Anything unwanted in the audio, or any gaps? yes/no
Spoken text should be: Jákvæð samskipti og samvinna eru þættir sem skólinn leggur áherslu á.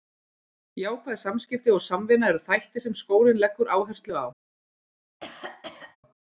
yes